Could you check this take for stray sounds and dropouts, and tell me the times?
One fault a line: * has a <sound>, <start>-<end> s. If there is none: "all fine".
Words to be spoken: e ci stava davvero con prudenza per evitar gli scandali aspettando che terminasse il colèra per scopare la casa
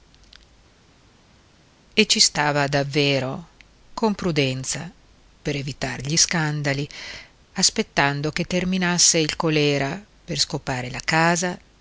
all fine